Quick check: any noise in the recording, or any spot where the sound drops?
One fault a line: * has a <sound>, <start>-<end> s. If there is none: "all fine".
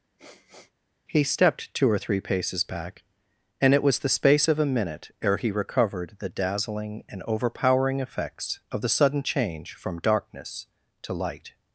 * has a sniff, 0.2-0.7 s